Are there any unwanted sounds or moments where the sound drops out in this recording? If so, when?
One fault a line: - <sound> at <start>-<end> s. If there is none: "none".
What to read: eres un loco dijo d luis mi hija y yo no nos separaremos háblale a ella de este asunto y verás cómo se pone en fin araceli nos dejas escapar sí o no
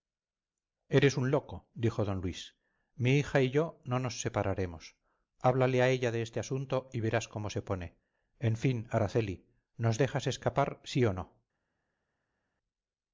none